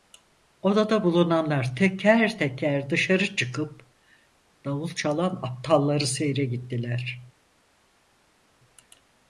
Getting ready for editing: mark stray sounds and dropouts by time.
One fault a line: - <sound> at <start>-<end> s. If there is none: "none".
none